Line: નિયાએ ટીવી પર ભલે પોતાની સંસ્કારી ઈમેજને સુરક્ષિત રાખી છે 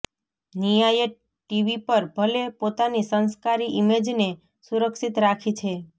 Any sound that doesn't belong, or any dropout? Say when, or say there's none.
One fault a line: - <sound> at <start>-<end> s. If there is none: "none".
none